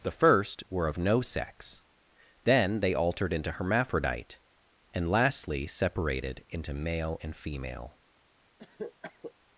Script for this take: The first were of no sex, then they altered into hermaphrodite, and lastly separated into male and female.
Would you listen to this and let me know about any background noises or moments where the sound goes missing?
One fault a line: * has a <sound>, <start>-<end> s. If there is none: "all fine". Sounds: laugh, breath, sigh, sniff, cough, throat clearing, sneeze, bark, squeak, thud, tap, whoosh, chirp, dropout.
* has a cough, 8.6-9.3 s